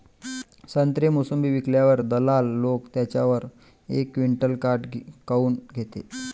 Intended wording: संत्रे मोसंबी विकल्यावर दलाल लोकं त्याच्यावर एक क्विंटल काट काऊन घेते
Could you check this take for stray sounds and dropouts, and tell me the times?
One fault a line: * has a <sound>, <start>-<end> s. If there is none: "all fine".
all fine